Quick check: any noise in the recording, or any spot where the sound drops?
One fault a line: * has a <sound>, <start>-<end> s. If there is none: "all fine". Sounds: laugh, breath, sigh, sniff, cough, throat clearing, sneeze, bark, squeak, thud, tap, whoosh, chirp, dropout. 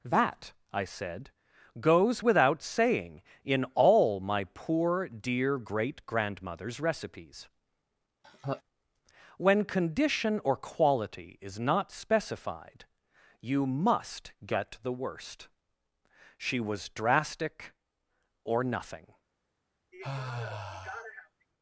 * has a laugh, 8.2-8.6 s
* has a sigh, 19.9-21.5 s